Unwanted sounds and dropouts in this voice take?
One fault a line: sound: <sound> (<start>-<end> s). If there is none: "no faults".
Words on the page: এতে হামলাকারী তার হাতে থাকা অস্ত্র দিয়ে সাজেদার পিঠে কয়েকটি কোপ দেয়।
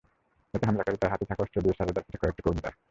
no faults